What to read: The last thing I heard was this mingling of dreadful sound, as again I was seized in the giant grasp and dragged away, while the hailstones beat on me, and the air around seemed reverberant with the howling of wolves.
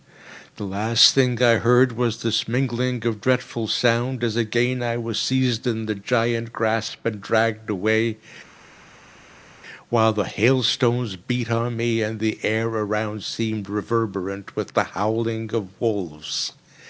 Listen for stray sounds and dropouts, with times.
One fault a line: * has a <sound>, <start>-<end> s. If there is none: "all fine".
all fine